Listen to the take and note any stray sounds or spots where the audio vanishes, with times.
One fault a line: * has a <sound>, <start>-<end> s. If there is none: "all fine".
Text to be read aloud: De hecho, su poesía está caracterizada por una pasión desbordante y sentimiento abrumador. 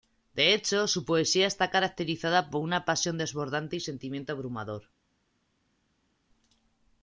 all fine